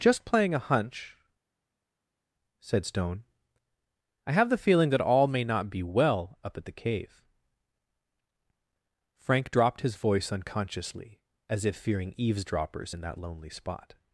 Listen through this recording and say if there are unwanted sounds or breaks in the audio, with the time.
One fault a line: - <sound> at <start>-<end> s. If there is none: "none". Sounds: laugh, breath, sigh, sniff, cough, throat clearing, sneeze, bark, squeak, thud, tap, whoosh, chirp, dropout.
none